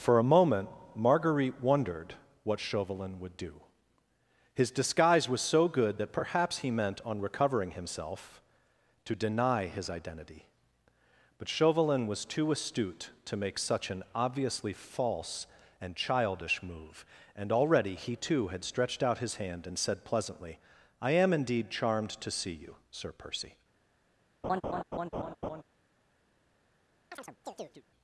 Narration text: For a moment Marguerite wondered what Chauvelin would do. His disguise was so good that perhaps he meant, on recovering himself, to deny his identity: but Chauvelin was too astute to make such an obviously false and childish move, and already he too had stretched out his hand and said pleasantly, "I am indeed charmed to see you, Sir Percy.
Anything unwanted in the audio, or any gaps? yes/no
yes